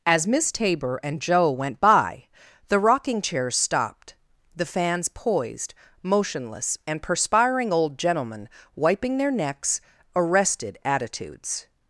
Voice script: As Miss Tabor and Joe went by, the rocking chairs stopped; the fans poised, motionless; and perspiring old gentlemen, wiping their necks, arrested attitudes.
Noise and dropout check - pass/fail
pass